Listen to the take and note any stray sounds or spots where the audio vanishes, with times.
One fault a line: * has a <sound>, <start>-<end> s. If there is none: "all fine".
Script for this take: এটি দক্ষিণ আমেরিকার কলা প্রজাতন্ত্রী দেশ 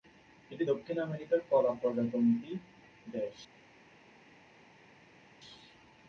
all fine